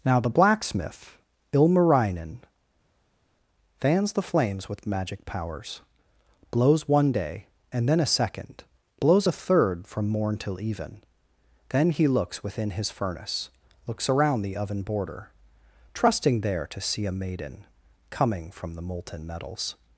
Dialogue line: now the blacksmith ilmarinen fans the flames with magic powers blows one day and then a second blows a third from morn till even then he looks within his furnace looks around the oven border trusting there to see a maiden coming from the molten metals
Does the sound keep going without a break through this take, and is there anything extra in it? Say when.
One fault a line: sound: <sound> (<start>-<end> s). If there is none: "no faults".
no faults